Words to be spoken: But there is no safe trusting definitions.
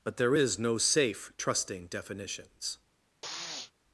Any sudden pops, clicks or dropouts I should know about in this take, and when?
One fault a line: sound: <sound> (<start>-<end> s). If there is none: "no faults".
sound: sniff (3.2-3.7 s)